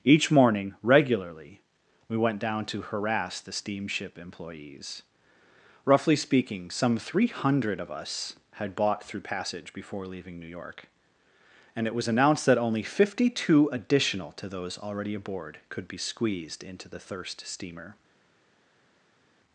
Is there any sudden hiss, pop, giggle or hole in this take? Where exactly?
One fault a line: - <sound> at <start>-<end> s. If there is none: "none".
none